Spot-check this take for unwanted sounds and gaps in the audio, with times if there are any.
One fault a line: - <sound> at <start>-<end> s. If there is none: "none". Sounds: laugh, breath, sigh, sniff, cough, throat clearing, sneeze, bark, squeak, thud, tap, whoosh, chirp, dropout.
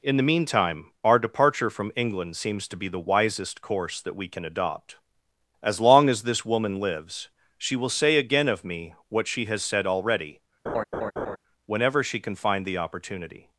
- laugh at 10.7-11.4 s